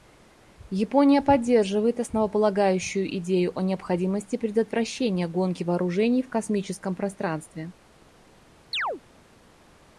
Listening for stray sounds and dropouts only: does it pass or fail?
fail